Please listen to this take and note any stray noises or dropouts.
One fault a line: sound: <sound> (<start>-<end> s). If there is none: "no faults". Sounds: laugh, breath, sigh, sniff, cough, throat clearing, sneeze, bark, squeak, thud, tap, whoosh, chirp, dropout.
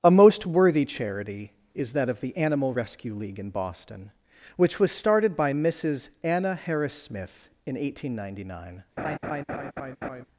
sound: laugh (9.0-10.2 s)